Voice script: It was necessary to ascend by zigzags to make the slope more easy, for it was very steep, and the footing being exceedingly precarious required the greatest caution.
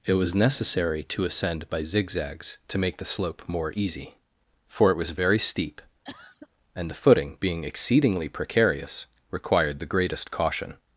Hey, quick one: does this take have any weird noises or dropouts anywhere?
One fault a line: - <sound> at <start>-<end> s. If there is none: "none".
- cough at 6.0-6.5 s